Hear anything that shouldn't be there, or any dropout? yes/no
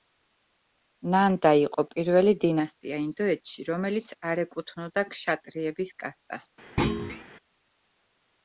yes